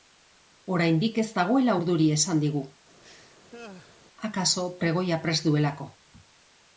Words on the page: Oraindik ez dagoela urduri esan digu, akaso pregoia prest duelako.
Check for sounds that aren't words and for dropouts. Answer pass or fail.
fail